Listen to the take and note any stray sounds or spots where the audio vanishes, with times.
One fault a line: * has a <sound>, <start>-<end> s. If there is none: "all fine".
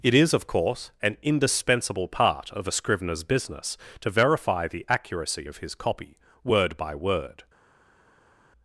all fine